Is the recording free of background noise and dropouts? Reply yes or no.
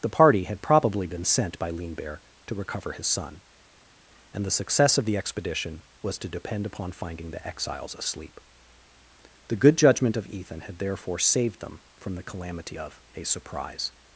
yes